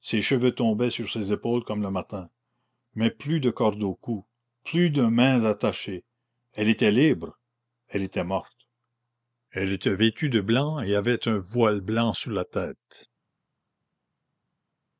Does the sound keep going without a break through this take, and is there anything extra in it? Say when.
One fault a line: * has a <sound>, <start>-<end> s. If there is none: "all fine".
all fine